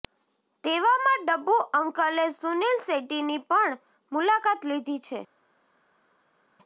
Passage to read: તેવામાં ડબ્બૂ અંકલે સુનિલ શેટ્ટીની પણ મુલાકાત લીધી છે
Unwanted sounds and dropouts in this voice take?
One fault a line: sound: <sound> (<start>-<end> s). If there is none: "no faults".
no faults